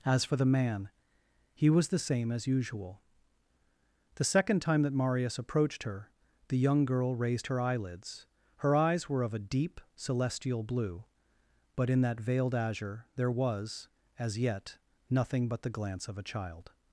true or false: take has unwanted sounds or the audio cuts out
false